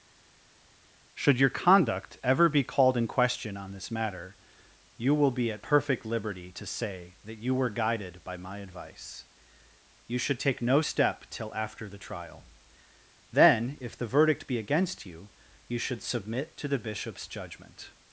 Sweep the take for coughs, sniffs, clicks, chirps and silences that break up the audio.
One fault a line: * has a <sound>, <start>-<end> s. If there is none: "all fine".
all fine